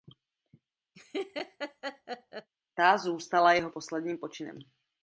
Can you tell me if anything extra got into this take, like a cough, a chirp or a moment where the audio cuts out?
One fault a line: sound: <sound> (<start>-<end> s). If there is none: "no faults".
sound: laugh (0.9-2.5 s)